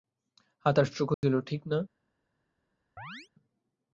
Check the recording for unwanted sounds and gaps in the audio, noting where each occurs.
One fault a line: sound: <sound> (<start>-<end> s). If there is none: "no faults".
sound: dropout (1.1-1.2 s)
sound: chirp (3.0-3.3 s)